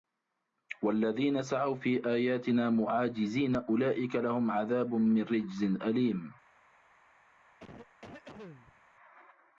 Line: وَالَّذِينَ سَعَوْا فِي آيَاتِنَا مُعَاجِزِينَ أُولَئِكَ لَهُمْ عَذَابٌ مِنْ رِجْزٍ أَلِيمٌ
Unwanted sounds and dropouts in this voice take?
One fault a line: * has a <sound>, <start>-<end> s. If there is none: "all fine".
* has a cough, 7.6-8.8 s